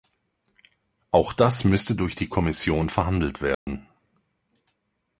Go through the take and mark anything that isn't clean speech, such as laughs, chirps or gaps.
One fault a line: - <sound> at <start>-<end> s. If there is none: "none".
- dropout at 3.5-3.7 s